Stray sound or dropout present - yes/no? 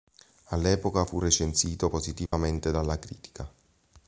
yes